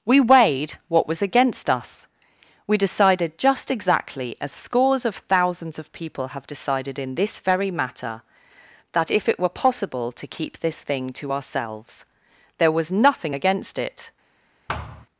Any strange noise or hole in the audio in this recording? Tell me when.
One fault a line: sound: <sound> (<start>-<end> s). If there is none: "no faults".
sound: thud (14.7-15.1 s)